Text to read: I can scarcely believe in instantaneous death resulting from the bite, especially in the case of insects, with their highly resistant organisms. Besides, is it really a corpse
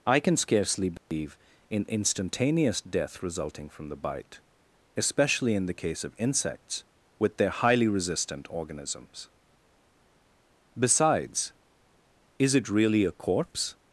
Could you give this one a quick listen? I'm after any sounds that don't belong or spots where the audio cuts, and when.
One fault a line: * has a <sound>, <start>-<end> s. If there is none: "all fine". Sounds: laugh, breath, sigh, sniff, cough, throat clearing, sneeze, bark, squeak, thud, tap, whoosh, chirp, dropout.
* has a dropout, 1.0-1.1 s